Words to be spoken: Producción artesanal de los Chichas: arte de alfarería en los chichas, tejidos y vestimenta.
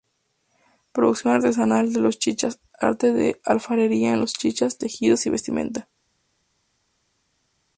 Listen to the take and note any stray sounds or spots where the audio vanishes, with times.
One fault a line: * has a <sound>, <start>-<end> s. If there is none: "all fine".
all fine